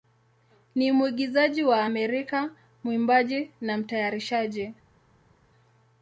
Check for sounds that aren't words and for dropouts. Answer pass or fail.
pass